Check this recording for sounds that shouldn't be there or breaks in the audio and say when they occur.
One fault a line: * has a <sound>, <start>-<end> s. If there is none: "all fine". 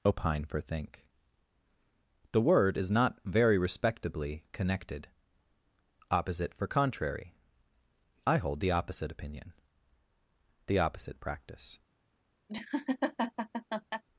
* has a laugh, 12.5-14.0 s